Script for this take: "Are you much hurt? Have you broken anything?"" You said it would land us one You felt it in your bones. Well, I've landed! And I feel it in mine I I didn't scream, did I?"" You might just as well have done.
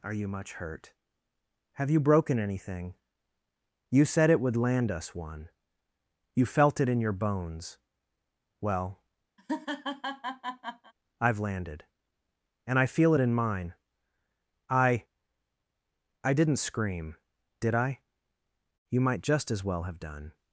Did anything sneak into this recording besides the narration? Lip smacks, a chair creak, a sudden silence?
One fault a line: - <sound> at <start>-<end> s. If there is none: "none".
- laugh at 9.4-10.9 s